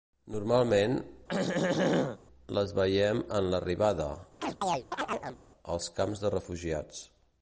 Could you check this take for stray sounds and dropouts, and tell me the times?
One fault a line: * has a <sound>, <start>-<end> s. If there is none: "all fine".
* has a throat clearing, 1.3-2.2 s
* has a chirp, 4.4-5.4 s